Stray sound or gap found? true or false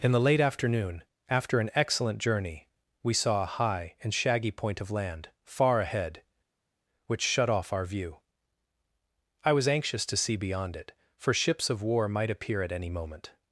false